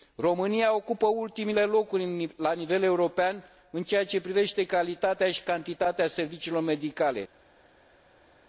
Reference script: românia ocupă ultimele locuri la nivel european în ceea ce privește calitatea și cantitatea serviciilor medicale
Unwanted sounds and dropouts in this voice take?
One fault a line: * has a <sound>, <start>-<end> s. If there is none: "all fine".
all fine